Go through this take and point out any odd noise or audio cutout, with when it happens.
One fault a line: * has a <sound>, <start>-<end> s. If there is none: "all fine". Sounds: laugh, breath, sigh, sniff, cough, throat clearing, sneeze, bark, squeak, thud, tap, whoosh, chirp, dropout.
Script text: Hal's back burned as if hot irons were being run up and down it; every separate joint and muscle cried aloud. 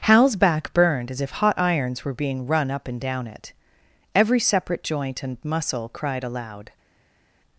all fine